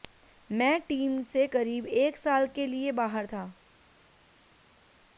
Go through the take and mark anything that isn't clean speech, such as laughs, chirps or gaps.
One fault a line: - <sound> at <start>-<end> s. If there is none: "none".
none